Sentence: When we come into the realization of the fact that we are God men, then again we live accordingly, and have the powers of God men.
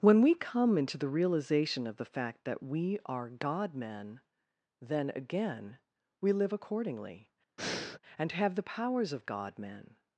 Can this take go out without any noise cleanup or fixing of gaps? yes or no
no